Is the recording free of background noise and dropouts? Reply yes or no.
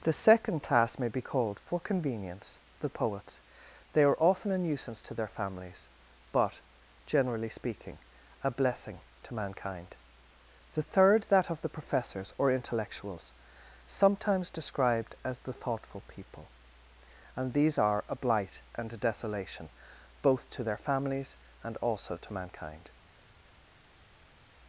yes